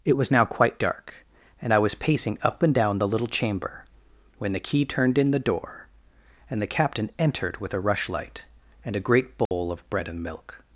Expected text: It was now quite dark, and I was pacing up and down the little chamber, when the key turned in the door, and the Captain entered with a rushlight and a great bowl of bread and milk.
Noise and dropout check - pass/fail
fail